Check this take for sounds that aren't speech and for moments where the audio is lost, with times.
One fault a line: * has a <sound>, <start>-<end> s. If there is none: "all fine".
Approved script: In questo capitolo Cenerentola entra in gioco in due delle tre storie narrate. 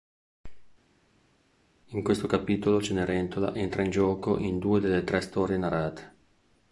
all fine